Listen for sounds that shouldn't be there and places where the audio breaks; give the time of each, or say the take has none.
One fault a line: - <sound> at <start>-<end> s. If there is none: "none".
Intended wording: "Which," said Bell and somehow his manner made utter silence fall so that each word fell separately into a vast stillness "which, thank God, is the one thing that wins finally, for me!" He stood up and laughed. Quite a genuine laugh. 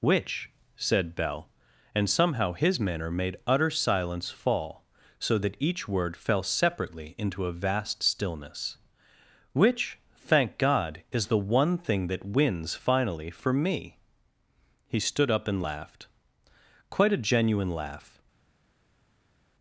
none